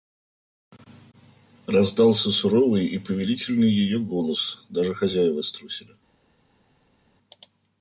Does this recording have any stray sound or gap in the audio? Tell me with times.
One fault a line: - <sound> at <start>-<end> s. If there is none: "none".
none